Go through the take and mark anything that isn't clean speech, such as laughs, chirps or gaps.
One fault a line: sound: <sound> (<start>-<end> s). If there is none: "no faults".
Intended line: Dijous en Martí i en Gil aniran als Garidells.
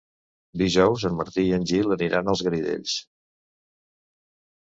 no faults